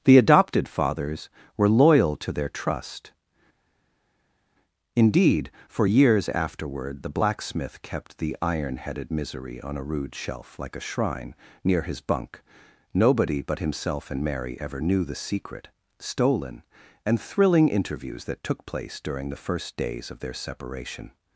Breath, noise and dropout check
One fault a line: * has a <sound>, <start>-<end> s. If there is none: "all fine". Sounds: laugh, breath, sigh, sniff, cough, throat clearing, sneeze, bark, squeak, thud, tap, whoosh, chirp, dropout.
all fine